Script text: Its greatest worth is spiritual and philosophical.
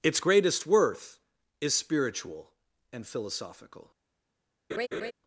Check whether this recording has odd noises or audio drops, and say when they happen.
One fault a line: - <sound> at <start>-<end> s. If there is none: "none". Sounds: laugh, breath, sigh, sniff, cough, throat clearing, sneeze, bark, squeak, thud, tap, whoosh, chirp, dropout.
- laugh at 4.7-5.1 s